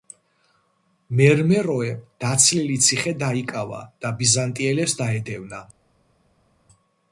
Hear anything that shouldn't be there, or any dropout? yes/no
no